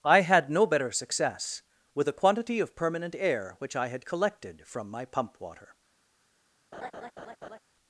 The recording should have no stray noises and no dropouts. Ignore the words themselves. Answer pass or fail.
fail